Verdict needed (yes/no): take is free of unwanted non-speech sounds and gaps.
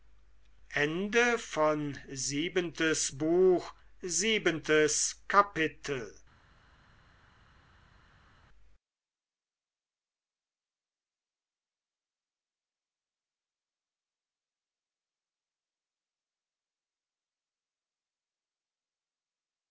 yes